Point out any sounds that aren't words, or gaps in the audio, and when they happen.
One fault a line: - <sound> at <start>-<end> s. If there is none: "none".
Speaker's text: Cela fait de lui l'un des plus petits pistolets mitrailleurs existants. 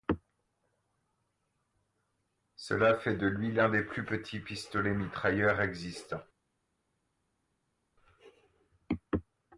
none